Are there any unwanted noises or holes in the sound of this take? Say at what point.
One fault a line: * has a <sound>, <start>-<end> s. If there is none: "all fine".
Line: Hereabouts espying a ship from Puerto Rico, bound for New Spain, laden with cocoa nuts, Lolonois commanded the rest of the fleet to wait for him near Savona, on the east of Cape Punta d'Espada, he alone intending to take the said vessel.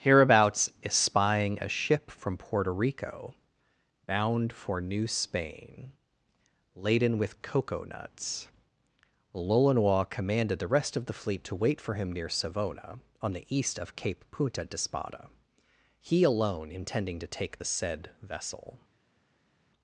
all fine